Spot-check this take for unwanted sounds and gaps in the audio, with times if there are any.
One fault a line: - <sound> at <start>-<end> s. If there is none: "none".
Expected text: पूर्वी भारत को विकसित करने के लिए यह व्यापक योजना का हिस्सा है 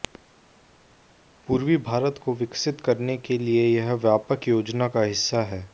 none